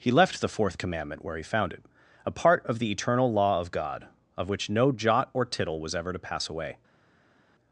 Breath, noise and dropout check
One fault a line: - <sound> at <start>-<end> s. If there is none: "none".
none